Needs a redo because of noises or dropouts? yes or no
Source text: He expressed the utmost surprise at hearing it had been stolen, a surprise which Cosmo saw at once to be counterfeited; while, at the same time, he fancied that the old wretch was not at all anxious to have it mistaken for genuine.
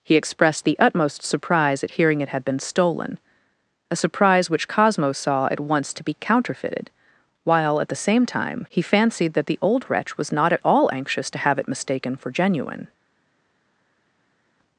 no